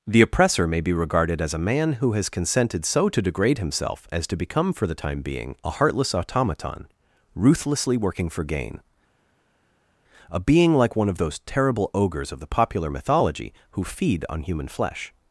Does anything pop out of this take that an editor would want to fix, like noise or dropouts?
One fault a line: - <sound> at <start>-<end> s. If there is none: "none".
none